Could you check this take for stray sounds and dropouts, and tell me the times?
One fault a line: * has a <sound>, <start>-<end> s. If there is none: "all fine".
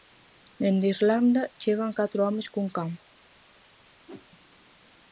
* has a whoosh, 4.1-4.3 s